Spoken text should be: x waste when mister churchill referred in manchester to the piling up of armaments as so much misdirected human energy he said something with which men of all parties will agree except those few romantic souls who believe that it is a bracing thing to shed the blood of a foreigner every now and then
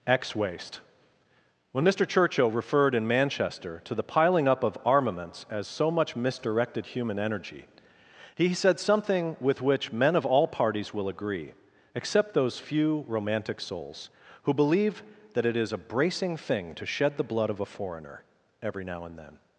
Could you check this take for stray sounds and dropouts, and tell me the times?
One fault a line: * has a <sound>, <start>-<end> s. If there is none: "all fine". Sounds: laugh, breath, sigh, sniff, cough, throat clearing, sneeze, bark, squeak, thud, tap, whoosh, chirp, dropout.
all fine